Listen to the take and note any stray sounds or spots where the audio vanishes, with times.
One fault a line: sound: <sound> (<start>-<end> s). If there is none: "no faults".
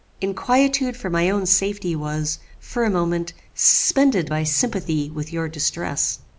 no faults